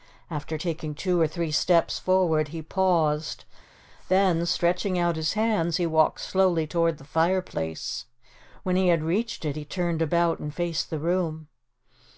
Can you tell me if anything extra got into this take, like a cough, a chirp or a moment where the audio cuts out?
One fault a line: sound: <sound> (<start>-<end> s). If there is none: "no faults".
no faults